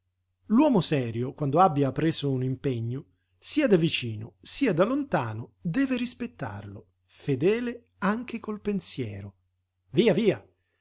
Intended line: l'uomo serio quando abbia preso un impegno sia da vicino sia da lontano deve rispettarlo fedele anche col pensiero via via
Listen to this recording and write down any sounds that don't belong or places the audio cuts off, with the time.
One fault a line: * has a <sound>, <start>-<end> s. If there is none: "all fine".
all fine